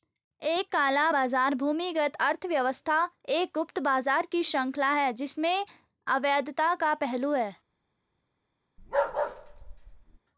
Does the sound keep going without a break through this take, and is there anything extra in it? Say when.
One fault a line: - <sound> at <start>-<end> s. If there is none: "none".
- bark at 8.8-10.2 s